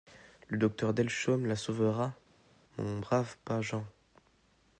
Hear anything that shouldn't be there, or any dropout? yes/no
no